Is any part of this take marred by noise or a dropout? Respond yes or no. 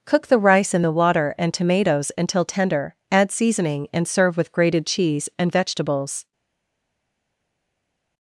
no